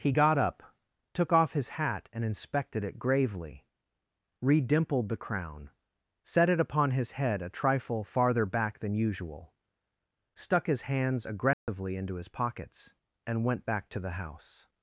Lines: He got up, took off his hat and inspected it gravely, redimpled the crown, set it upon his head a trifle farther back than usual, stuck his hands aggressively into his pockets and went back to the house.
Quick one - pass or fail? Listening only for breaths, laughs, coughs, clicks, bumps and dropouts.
fail